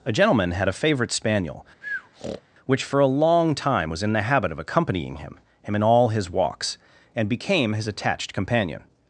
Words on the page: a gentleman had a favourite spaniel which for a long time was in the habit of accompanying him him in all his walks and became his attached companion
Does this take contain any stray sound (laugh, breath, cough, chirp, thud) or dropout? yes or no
yes